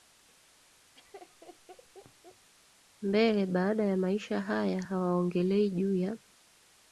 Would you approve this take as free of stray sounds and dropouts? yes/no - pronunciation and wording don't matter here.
no